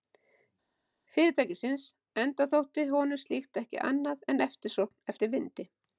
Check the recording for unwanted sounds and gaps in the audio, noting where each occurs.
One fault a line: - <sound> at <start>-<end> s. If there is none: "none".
none